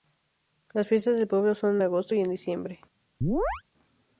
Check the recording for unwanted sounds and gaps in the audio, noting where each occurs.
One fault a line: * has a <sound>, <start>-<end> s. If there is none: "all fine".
* has a chirp, 3.2-3.6 s